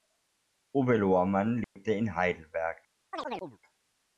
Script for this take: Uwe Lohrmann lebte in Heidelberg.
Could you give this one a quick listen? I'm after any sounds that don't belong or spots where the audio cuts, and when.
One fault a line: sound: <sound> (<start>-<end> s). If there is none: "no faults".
sound: dropout (1.6-1.8 s)
sound: chirp (3.1-3.6 s)